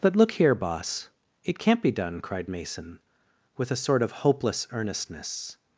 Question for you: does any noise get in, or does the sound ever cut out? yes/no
no